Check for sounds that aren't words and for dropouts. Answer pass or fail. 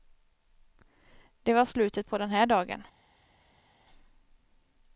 pass